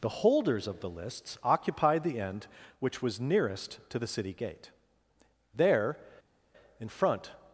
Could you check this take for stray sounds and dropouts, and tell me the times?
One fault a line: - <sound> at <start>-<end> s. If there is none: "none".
none